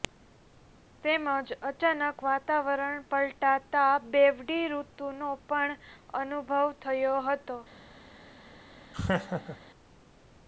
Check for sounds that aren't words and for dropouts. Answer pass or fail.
fail